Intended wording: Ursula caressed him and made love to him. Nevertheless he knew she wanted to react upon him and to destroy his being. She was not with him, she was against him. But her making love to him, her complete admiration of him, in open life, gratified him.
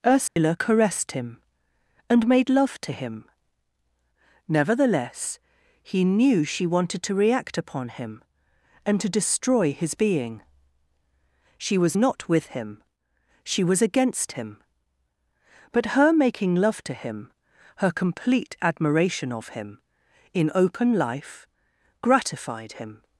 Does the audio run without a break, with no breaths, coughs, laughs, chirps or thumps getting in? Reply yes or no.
no